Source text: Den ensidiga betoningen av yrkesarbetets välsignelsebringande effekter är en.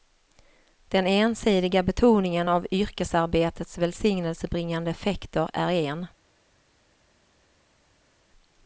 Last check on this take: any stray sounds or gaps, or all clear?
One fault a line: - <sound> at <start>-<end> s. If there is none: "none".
none